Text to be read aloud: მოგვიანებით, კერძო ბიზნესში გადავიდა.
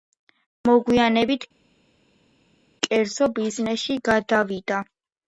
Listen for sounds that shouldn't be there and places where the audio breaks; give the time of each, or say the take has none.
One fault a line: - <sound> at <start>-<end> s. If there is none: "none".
none